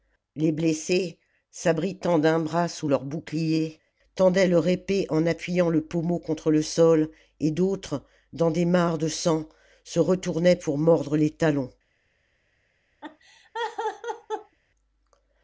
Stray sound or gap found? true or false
true